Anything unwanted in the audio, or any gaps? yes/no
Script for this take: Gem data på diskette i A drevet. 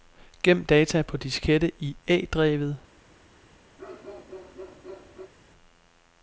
yes